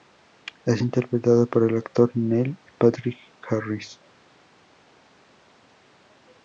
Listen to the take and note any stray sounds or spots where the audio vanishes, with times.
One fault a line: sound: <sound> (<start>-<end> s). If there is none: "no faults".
no faults